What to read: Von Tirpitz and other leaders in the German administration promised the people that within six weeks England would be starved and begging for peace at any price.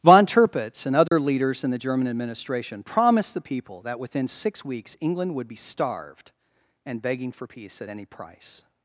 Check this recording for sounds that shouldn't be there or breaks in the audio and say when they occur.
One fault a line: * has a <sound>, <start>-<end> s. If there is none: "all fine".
* has a dropout, 1.1-1.1 s